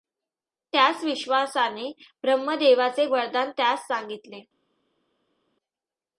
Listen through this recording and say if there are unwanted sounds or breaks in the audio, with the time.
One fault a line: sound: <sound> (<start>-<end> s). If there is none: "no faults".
no faults